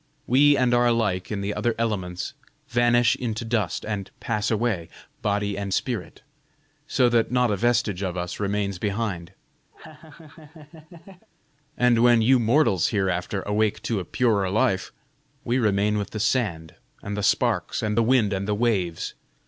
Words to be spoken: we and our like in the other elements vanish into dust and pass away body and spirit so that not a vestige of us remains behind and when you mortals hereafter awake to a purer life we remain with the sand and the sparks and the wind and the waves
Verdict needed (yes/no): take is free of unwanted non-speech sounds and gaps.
no